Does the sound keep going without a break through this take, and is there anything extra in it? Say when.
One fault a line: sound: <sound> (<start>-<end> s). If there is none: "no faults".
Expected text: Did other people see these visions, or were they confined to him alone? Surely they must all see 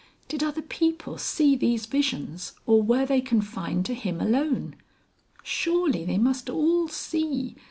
no faults